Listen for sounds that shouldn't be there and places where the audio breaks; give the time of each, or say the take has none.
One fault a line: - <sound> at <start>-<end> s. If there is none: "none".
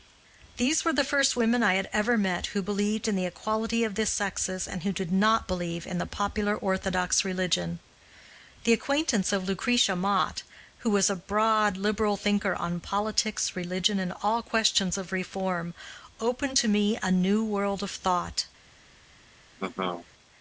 - laugh at 19.6-20.1 s